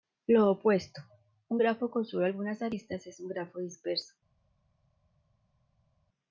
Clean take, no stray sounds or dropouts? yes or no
yes